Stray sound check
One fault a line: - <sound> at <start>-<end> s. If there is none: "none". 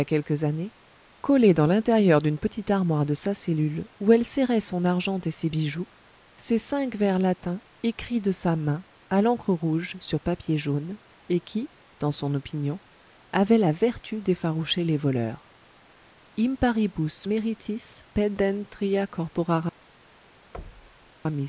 - thud at 20.5-21.1 s